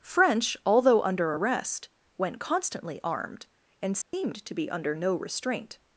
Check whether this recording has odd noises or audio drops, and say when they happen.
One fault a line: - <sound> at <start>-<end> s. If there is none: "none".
- dropout at 4.0-4.1 s